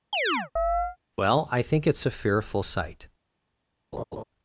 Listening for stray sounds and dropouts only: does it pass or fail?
fail